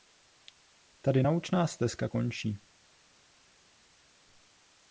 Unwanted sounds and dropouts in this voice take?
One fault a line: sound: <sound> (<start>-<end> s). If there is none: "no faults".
no faults